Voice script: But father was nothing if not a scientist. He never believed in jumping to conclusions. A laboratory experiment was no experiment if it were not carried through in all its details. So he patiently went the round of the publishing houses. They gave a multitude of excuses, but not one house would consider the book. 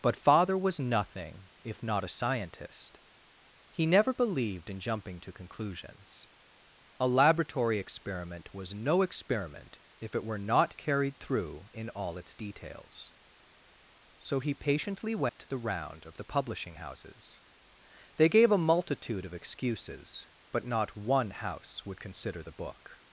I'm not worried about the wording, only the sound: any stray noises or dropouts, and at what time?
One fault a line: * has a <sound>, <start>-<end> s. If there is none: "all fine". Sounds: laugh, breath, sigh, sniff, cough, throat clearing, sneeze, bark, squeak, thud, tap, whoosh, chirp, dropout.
* has a dropout, 15.3-15.4 s